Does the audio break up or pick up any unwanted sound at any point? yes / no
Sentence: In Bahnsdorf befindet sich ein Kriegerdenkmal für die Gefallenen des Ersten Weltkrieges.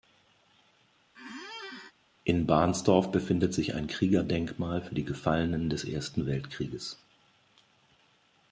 yes